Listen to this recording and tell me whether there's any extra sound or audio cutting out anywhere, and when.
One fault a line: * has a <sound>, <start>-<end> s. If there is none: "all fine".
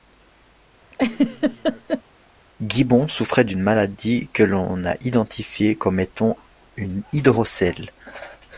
* has a laugh, 0.9-2.0 s